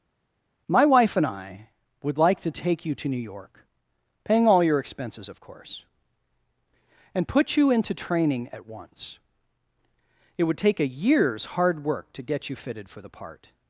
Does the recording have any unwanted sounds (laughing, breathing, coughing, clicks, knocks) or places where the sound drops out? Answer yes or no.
no